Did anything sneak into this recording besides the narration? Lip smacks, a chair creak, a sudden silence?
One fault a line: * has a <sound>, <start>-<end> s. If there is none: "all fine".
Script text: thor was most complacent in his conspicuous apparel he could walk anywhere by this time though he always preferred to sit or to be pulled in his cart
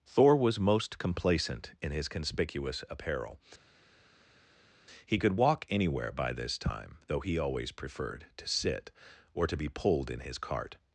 all fine